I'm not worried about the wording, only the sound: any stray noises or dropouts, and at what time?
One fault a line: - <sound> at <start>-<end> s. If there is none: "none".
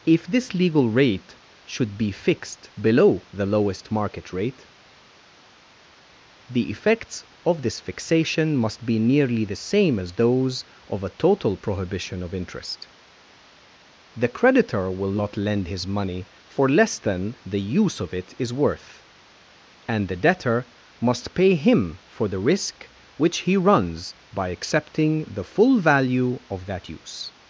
none